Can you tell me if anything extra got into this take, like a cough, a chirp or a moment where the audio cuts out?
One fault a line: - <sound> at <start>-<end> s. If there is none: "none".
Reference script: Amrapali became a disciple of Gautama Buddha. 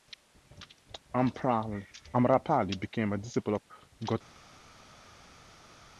none